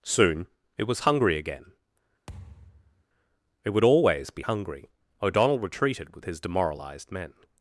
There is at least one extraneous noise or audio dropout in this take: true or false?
true